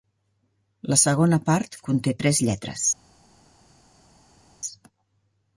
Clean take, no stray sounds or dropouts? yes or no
yes